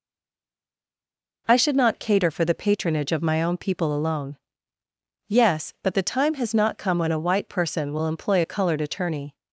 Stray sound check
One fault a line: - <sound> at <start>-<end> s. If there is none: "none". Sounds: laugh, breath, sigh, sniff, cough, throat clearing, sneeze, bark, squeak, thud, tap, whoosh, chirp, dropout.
none